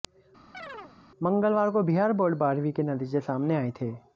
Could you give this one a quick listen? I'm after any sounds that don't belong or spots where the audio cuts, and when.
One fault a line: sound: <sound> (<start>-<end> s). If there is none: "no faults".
sound: chirp (0.5-1.0 s)